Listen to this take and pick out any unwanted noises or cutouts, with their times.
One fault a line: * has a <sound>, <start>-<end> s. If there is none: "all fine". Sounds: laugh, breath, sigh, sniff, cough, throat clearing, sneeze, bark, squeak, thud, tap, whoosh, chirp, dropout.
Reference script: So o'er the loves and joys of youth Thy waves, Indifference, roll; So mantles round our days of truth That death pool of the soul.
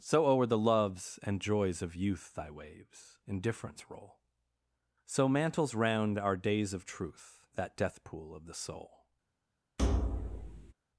* has a thud, 9.8-10.7 s